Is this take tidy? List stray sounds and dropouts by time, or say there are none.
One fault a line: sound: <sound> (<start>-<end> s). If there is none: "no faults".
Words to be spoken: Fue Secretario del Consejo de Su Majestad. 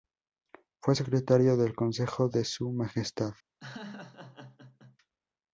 sound: laugh (3.6-5.0 s)